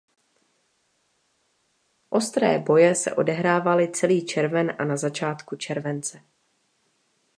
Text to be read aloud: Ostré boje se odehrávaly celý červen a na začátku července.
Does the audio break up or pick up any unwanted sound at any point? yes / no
no